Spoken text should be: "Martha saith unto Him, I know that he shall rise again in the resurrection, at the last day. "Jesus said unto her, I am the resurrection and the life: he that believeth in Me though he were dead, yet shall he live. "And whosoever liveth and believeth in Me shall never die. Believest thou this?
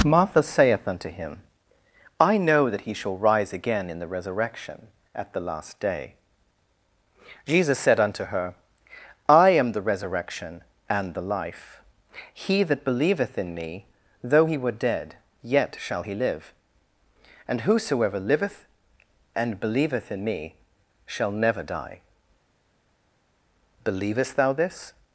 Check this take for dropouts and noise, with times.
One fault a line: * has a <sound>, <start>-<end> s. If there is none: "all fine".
all fine